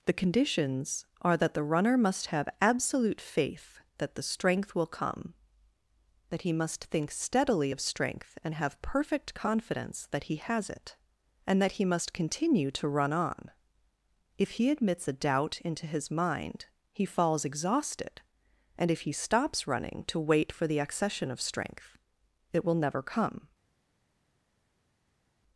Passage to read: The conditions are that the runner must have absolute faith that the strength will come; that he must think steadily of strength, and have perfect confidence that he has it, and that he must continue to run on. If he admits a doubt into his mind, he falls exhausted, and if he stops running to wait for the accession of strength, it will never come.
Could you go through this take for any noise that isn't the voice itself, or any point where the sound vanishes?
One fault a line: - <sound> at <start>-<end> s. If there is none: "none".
none